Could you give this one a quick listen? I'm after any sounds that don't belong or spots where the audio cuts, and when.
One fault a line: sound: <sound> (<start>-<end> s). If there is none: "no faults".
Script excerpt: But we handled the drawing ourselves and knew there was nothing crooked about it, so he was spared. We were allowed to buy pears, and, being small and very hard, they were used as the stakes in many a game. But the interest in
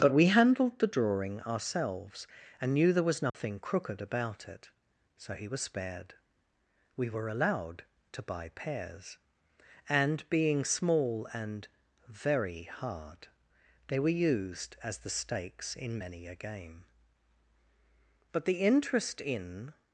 sound: dropout (3.3-3.3 s)